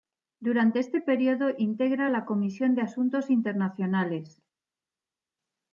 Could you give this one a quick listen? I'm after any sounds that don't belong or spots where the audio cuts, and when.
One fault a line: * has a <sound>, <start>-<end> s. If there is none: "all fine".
all fine